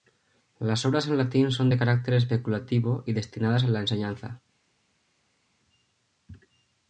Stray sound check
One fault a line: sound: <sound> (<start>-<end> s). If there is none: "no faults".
no faults